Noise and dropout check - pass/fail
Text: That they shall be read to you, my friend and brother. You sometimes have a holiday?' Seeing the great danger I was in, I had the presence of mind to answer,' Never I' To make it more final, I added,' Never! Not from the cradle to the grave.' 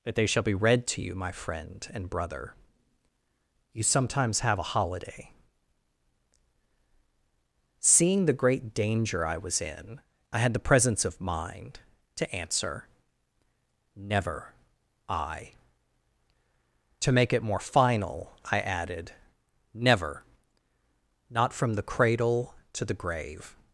pass